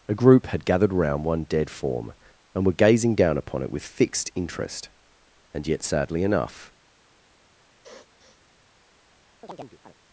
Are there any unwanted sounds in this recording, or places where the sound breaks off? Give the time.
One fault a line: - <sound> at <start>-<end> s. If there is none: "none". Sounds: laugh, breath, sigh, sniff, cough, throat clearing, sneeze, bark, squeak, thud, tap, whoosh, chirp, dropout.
- sniff at 7.8-8.4 s
- chirp at 9.4-9.9 s